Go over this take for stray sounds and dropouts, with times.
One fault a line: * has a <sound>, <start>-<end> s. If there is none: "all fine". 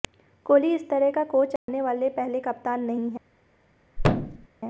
* has a dropout, 1.6-1.7 s
* has a thud, 4.0-4.5 s